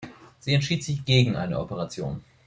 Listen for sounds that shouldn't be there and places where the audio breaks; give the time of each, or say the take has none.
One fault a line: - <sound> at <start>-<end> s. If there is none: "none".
none